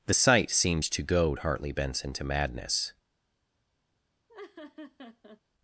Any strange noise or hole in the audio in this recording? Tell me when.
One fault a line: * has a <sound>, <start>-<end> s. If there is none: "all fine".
* has a laugh, 4.3-5.4 s